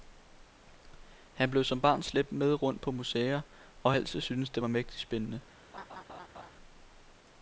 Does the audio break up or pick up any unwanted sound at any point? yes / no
yes